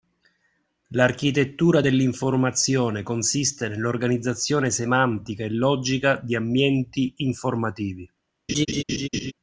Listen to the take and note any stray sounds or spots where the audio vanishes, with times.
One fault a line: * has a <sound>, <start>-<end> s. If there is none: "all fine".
* has a laugh, 8.5-9.3 s